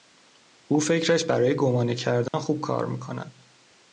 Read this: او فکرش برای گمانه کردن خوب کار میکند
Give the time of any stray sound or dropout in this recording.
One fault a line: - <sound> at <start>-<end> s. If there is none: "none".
- dropout at 2.3-2.3 s